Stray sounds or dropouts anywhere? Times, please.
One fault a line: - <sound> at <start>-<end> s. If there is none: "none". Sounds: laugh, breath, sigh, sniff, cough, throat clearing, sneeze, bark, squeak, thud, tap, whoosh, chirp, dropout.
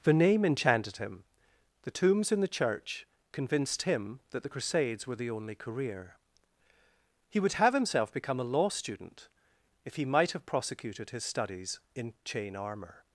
none